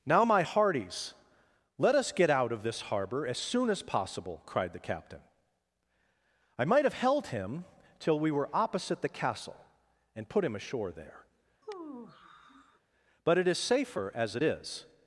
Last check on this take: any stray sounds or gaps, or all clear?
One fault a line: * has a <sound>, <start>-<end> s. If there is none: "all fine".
* has a sigh, 11.6-12.8 s